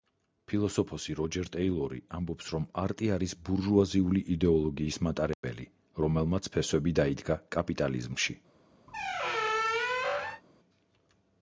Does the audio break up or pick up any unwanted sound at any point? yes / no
yes